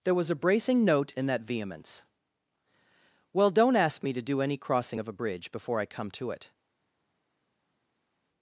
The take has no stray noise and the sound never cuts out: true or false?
true